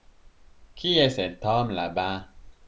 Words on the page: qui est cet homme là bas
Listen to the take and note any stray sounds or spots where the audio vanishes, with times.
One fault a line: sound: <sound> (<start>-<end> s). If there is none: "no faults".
no faults